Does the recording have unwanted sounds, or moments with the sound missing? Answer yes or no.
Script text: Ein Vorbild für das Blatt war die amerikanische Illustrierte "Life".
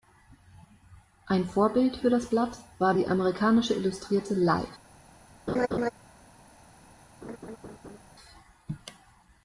yes